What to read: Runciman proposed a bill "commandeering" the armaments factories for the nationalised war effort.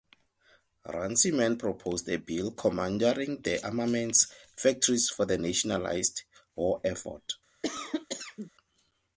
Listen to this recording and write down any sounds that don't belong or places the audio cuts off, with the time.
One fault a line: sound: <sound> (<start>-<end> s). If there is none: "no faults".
sound: cough (7.6-8.5 s)